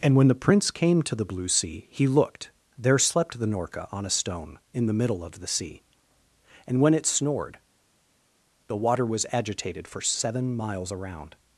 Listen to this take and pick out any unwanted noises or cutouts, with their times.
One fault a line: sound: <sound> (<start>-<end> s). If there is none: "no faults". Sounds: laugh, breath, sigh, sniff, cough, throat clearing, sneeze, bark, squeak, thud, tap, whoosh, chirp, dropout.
no faults